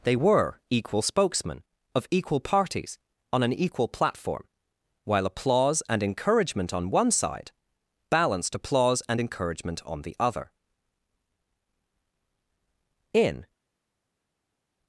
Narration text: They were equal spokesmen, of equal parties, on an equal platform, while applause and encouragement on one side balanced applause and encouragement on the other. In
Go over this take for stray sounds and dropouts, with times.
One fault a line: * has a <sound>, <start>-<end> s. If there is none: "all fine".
all fine